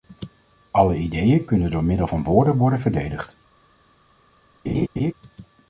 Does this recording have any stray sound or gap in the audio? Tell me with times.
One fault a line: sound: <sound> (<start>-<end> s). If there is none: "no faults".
sound: laugh (4.6-5.1 s)